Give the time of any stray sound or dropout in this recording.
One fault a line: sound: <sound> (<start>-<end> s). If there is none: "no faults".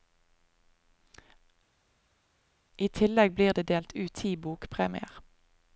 no faults